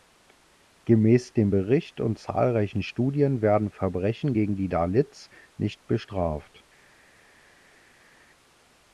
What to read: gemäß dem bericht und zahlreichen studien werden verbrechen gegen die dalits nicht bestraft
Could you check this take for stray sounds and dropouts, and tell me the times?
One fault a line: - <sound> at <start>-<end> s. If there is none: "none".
none